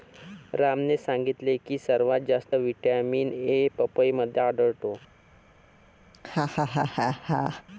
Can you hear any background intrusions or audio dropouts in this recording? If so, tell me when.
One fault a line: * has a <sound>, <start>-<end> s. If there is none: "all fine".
* has a laugh, 6.1-7.6 s